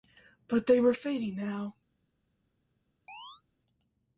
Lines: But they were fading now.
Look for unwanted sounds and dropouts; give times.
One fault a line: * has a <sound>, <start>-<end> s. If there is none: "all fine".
* has a chirp, 3.1-3.4 s